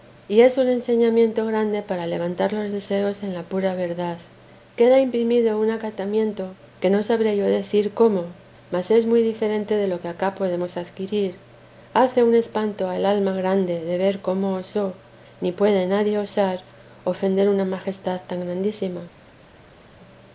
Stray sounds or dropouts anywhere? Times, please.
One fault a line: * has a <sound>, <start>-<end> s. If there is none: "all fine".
all fine